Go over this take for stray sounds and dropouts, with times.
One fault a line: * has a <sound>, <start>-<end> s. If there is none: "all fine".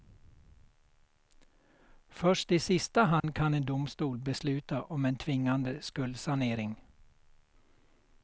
* has a dropout, 3.2-3.2 s